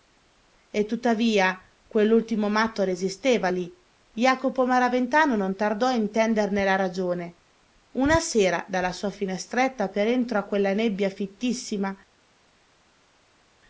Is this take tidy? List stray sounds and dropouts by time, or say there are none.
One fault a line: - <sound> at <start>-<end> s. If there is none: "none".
none